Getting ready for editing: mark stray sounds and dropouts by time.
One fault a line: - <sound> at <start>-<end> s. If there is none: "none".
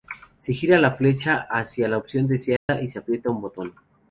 - dropout at 2.6-2.7 s